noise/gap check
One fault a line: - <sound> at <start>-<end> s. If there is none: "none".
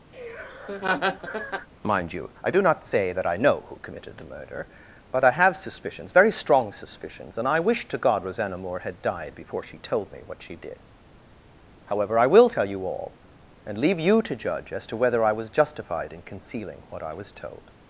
- laugh at 0.1-1.7 s